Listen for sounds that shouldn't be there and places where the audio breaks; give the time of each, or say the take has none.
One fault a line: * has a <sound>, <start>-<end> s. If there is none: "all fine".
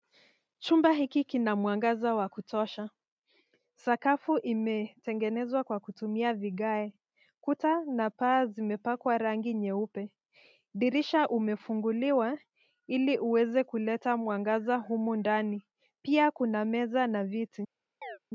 * has a chirp, 18.0-18.2 s